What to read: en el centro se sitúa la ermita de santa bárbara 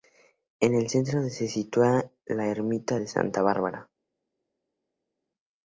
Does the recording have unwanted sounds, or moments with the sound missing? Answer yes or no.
no